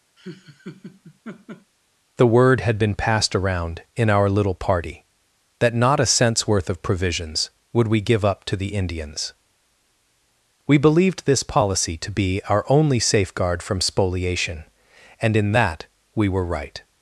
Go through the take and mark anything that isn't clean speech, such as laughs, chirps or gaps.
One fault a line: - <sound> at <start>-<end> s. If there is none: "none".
- laugh at 0.2-1.7 s